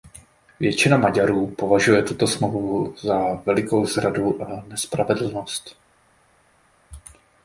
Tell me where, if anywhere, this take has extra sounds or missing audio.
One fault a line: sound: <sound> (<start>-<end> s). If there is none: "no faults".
no faults